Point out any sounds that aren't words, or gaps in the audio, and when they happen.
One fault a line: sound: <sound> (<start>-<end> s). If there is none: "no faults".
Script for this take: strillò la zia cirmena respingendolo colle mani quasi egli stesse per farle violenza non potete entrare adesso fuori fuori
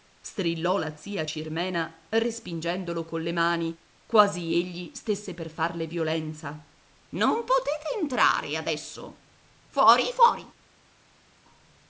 no faults